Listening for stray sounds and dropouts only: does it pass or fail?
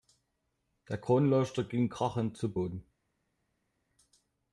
pass